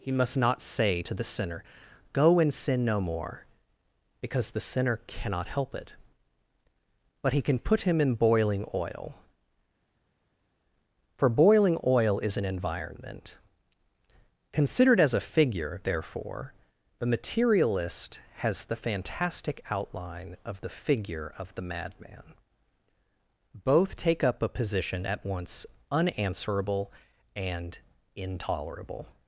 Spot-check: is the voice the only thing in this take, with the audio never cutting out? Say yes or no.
yes